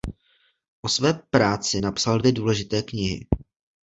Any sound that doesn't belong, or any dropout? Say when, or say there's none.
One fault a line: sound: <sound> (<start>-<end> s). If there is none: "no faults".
no faults